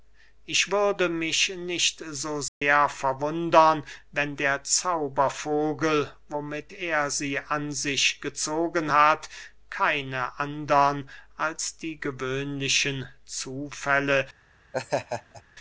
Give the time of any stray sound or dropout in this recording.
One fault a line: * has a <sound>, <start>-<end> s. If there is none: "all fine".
* has a dropout, 2.5-2.6 s
* has a laugh, 14.7-15.4 s